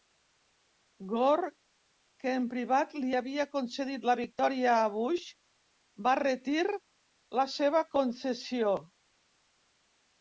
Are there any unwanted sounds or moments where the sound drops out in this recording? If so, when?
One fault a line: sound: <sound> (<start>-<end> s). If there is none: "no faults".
no faults